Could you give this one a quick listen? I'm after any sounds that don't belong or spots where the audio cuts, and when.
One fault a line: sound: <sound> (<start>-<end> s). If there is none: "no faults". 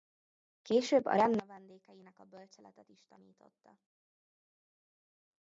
no faults